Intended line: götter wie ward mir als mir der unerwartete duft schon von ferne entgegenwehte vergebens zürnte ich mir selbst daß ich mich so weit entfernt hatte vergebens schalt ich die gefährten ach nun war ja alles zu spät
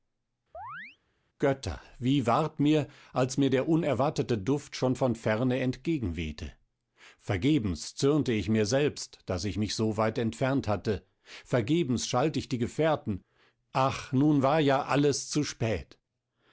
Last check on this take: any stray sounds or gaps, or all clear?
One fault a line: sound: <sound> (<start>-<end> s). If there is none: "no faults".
sound: chirp (0.5-1.0 s)